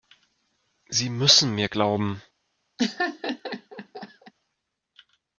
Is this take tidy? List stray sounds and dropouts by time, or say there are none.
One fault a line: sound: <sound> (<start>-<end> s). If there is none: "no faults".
sound: laugh (2.8-4.3 s)